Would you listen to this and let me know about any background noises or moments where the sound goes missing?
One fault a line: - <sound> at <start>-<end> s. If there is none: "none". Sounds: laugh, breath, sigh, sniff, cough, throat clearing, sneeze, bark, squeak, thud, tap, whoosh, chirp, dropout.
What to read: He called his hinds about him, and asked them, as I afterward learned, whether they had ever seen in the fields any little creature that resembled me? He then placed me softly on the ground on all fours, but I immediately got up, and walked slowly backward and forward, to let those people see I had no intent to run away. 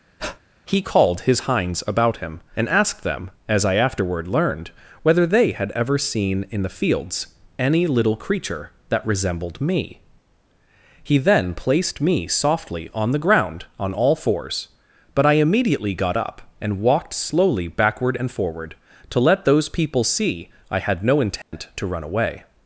- breath at 0.2-0.4 s
- dropout at 21.4-21.5 s